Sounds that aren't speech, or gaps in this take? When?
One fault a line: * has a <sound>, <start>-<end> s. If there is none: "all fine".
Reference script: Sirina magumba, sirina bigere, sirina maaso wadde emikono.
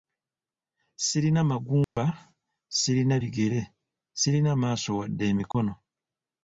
* has a dropout, 1.8-2.0 s
* has a dropout, 5.5-5.5 s